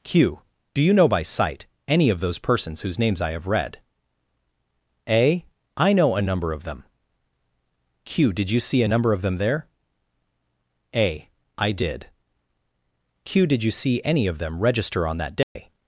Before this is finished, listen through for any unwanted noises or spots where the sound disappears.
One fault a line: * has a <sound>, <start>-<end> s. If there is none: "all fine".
* has a dropout, 15.4-15.6 s